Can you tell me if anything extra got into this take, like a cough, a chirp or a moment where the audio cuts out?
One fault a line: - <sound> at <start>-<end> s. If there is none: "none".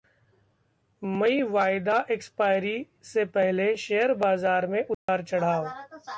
- dropout at 4.9-5.1 s